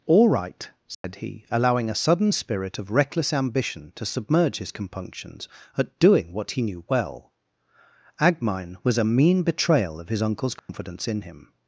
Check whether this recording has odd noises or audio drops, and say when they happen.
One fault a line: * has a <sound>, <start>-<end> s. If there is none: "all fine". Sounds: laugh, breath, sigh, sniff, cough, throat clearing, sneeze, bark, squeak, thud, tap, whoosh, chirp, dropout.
* has a dropout, 0.9-1.0 s
* has a dropout, 10.6-10.7 s